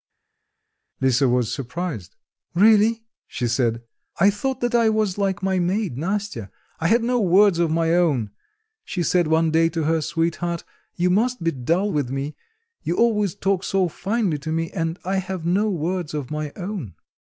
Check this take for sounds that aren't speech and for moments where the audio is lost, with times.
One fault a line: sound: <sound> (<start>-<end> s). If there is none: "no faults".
no faults